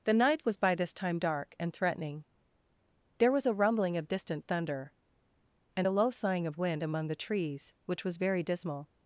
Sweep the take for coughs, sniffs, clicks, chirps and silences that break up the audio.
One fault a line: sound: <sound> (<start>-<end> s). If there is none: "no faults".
no faults